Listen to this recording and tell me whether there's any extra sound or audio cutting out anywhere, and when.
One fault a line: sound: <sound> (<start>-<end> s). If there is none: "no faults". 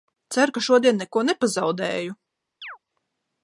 sound: chirp (2.6-2.8 s)